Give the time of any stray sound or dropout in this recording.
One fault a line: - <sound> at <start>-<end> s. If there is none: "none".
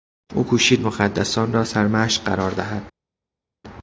none